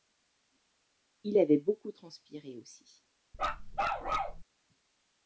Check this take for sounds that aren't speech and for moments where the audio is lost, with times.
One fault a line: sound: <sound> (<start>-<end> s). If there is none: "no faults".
sound: bark (3.3-4.4 s)